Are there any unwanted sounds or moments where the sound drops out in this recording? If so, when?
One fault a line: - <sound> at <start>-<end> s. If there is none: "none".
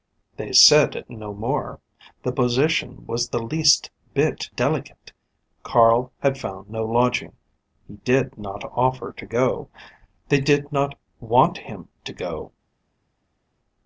none